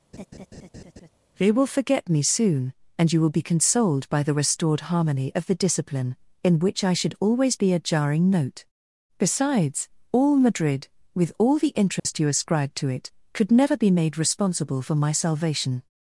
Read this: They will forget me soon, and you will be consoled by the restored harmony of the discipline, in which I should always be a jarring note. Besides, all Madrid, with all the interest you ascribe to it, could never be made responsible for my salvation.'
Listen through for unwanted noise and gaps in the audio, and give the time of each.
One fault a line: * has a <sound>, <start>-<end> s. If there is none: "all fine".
* has a laugh, 0.1-1.1 s
* has a dropout, 12.0-12.1 s